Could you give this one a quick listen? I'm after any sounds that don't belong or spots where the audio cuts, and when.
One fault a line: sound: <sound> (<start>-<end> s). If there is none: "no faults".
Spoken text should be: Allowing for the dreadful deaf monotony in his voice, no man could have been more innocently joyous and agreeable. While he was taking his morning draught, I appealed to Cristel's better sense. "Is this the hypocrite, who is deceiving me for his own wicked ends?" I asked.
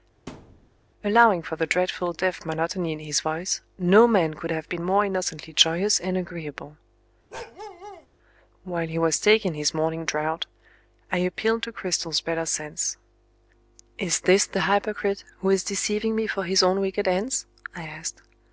sound: thud (0.3-0.7 s)
sound: bark (7.3-8.1 s)